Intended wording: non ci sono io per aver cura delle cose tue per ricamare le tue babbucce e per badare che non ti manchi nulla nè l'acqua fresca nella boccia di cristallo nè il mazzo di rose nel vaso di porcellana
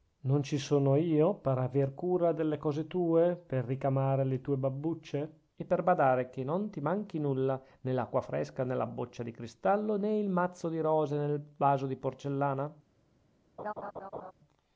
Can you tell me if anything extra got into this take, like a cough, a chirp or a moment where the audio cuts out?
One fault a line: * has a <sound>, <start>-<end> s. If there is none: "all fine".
* has a laugh, 13.6-14.3 s